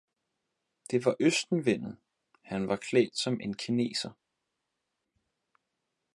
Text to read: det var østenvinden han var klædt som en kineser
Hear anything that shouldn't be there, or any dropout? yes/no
no